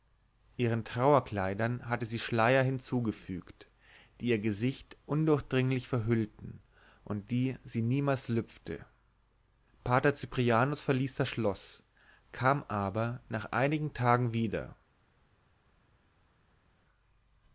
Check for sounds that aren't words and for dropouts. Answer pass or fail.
pass